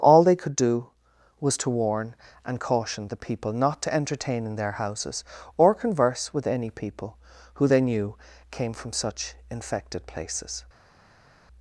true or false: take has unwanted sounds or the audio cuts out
false